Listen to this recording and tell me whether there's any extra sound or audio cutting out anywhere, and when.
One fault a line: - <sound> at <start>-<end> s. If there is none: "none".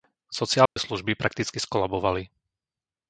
- dropout at 0.7-0.8 s